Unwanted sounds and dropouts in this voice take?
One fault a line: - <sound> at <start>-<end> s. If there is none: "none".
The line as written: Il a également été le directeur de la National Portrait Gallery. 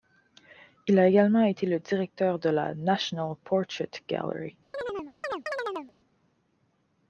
- chirp at 4.7-5.9 s